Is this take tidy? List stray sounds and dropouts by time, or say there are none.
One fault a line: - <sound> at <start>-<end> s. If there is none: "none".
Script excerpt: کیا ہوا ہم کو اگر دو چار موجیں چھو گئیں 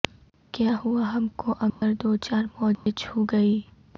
- dropout at 1.7-1.8 s
- dropout at 2.7-2.9 s